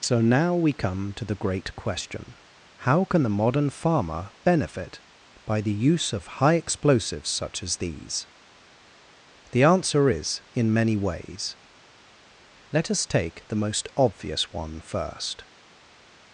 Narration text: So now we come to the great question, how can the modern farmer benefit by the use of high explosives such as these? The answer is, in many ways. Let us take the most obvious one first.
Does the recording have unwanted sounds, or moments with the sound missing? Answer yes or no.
no